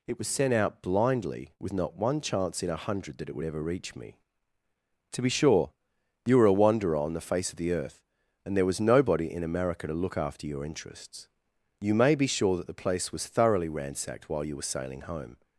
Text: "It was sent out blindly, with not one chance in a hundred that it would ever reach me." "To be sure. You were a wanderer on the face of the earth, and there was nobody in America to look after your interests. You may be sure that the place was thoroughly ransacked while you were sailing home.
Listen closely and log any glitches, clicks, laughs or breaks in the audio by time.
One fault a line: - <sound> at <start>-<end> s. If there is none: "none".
none